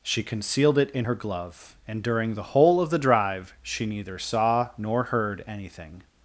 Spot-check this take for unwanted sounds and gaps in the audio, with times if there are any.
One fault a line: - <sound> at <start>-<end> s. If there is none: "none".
none